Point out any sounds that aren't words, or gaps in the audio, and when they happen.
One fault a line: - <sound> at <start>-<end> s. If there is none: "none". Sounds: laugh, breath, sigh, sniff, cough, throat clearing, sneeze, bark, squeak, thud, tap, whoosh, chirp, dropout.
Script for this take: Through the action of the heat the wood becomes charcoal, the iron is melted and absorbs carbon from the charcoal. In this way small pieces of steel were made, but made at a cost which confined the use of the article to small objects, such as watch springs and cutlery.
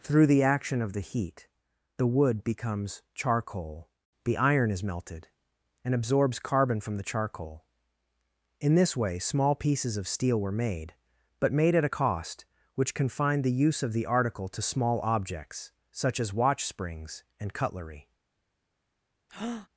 - breath at 19.3-19.7 s